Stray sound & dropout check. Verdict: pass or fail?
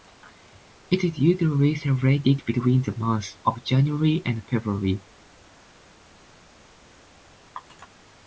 pass